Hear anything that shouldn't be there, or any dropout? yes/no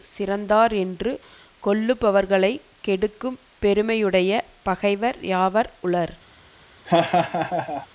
yes